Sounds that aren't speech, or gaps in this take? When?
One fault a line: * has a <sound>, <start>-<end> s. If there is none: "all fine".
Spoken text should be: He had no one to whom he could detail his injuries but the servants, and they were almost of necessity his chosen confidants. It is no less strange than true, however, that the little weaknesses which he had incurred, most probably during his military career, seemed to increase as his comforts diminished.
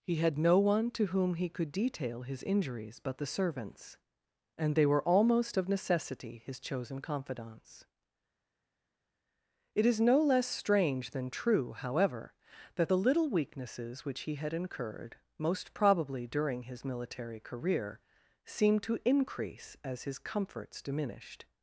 all fine